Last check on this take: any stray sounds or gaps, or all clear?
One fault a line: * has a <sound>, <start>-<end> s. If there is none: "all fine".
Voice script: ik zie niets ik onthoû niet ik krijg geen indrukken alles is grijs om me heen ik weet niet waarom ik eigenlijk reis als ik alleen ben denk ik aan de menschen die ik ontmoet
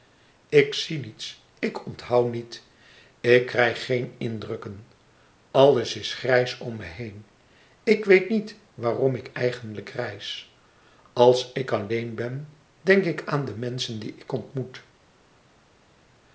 all fine